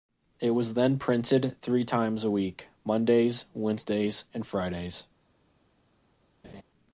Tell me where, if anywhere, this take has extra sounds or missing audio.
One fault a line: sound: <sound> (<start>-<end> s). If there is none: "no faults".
sound: laugh (6.4-6.6 s)